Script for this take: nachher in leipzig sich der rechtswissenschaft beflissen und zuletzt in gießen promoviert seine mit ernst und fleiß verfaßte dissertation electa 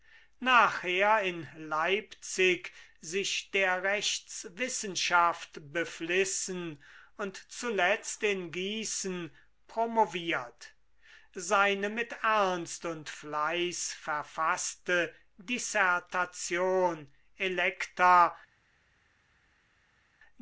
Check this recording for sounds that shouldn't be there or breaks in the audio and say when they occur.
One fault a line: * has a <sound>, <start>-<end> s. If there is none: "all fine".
all fine